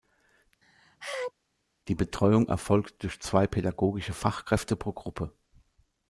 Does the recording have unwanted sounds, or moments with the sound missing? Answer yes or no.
yes